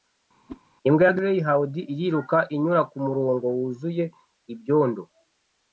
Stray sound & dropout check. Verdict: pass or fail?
fail